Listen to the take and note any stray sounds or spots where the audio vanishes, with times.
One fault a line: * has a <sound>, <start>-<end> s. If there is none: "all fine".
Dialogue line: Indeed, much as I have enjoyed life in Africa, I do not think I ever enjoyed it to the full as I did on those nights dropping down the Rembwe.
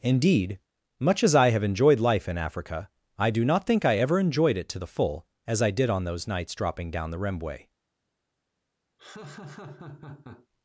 * has a laugh, 9.0-10.5 s